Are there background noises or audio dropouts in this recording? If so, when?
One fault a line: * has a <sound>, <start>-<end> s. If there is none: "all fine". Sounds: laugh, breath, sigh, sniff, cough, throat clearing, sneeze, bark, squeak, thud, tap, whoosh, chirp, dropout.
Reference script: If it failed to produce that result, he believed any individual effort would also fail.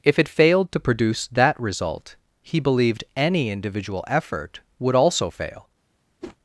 * has a whoosh, 6.2-6.4 s